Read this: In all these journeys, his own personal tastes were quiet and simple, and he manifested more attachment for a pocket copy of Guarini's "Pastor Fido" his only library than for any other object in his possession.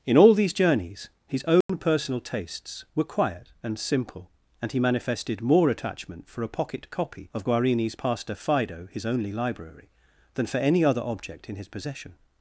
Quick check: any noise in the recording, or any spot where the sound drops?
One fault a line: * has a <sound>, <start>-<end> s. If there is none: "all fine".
* has a dropout, 1.6-1.7 s